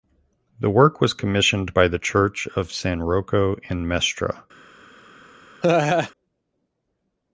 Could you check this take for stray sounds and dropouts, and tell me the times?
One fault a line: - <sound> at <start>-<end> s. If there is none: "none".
- laugh at 5.6-6.1 s